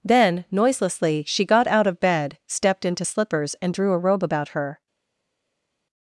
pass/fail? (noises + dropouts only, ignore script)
pass